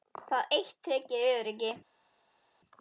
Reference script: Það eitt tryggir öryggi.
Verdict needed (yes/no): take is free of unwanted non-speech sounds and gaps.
yes